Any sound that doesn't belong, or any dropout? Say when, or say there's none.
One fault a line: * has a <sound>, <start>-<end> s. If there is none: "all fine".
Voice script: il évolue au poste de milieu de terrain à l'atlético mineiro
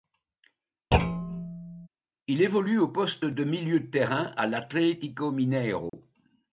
* has a thud, 0.9-1.9 s
* has a dropout, 5.9-5.9 s